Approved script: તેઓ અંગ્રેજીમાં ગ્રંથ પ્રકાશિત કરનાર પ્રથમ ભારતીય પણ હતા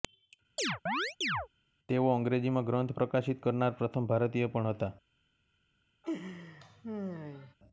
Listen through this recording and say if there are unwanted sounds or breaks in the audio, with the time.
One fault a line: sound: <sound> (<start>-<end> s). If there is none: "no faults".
sound: chirp (0.6-1.5 s)
sound: laugh (6.0-7.5 s)